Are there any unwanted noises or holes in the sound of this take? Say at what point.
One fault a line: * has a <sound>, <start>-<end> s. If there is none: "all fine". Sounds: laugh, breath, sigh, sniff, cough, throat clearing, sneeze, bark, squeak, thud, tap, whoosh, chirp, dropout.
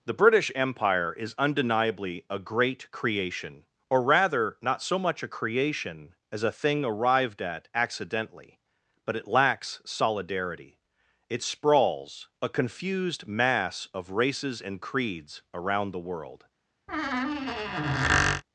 * has a squeak, 16.9-18.4 s